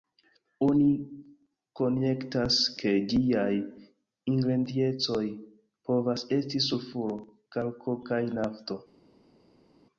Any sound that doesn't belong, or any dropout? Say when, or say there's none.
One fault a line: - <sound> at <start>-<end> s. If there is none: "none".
none